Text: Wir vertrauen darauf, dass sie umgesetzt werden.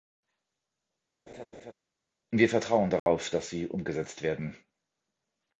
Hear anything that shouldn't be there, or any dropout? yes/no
yes